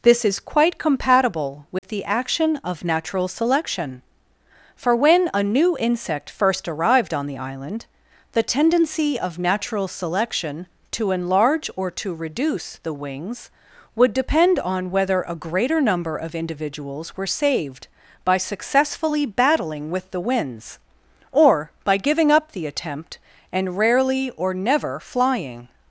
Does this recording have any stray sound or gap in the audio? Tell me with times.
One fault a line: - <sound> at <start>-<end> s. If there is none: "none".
- dropout at 1.8-1.8 s